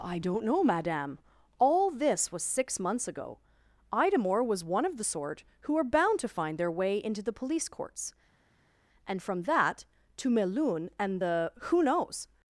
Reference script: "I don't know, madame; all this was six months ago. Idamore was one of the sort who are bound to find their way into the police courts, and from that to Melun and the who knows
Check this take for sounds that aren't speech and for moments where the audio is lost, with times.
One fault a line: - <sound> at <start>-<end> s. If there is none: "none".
none